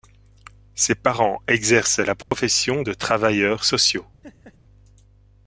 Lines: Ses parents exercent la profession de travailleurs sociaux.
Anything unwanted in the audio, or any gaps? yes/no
yes